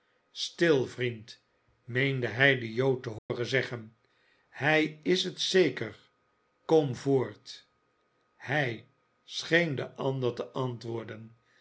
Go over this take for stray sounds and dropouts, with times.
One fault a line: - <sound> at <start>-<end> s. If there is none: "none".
- dropout at 3.2-3.3 s